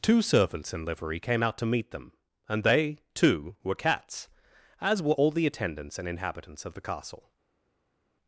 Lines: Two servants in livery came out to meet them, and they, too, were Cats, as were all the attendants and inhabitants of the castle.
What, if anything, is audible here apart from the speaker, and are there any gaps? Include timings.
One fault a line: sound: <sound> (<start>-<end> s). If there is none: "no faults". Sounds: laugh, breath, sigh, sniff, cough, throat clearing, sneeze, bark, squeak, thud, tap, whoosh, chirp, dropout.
no faults